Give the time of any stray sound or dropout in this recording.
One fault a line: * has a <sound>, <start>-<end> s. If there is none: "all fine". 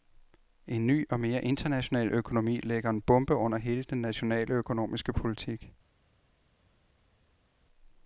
all fine